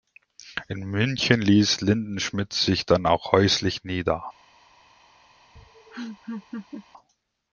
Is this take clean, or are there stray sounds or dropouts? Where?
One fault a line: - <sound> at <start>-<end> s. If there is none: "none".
- laugh at 5.6-6.9 s